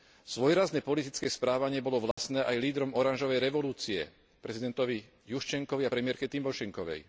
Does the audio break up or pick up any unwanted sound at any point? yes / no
yes